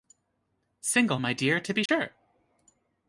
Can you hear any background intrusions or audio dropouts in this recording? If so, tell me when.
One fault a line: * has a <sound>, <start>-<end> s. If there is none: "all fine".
* has a dropout, 1.9-1.9 s